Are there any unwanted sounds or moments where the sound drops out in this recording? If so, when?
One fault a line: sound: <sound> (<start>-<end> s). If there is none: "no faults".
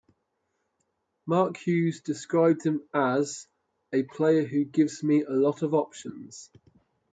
no faults